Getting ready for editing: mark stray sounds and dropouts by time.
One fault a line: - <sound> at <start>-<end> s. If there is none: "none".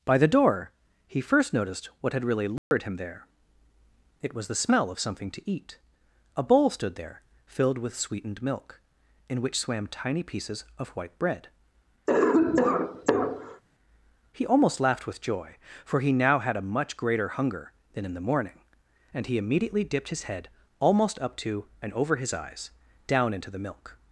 - dropout at 2.6-2.7 s
- cough at 12.1-13.6 s